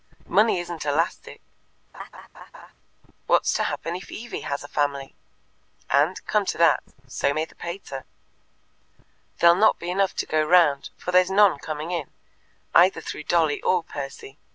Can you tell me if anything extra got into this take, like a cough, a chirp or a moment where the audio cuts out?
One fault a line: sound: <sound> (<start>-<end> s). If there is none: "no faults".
sound: laugh (1.9-2.7 s)